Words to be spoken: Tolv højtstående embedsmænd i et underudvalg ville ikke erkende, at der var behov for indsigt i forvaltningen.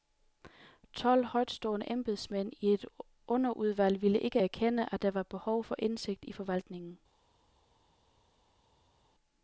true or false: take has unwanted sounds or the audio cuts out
false